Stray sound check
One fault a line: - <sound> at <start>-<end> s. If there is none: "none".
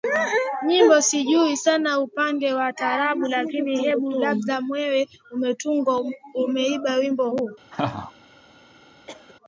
- laugh at 7.7-8.1 s
- cough at 9.1-9.4 s